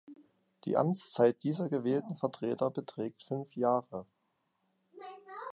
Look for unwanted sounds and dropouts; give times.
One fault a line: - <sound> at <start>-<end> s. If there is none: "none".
none